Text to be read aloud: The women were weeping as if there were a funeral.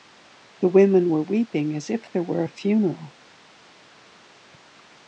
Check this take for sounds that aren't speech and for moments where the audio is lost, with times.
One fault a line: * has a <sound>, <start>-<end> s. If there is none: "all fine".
all fine